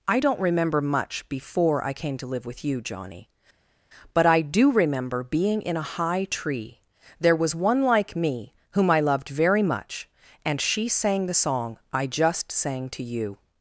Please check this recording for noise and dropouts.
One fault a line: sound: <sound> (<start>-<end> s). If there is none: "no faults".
no faults